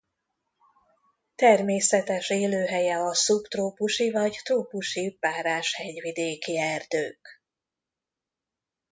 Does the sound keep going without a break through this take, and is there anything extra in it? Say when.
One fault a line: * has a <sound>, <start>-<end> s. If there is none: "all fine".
all fine